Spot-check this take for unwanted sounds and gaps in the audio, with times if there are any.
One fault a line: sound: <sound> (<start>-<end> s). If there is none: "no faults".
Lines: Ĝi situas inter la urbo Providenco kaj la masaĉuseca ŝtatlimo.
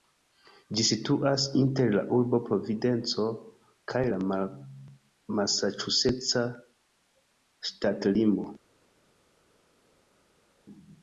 no faults